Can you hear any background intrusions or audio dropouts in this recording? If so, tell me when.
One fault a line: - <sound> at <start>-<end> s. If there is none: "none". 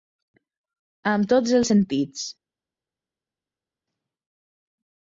none